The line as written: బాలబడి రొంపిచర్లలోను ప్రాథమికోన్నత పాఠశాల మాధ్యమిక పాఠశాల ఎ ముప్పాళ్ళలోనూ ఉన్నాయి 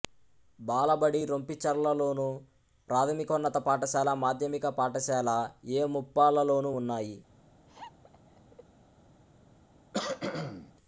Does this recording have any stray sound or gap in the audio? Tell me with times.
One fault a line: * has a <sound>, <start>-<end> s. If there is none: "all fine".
* has a laugh, 7.7-8.6 s
* has a cough, 9.9-10.7 s